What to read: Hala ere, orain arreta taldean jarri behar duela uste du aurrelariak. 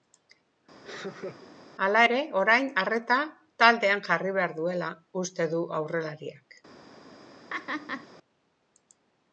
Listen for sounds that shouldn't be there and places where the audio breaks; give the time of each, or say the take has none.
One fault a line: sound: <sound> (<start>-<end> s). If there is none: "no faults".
sound: laugh (0.8-1.5 s)
sound: laugh (7.5-8.1 s)